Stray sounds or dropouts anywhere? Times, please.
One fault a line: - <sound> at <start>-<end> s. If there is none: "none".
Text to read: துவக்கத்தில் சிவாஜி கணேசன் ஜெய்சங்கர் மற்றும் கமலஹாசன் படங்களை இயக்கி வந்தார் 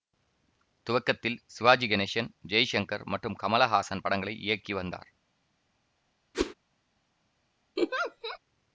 - whoosh at 6.3-6.5 s
- laugh at 7.8-8.4 s